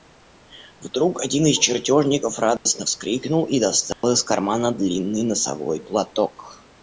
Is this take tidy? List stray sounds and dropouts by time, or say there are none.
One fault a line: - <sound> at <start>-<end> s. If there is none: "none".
- dropout at 2.6-2.7 s
- dropout at 3.9-4.0 s